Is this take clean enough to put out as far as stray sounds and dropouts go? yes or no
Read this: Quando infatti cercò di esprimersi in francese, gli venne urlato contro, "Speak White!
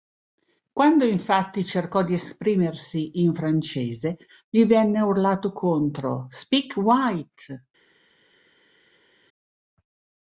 yes